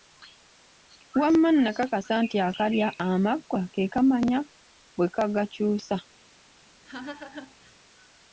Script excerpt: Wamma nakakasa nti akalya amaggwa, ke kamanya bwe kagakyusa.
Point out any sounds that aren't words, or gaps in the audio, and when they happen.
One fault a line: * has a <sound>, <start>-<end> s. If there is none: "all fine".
* has a laugh, 6.8-7.8 s